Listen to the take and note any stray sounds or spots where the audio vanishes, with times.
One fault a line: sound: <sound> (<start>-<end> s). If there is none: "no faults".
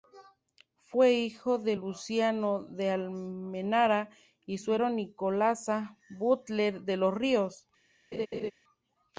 sound: laugh (8.1-8.5 s)